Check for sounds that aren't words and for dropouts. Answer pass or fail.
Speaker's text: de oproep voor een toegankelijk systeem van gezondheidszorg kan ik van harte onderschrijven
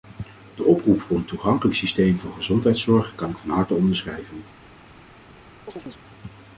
fail